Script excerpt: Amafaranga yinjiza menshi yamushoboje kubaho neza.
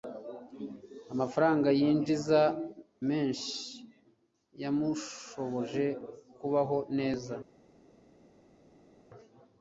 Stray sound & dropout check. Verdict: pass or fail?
pass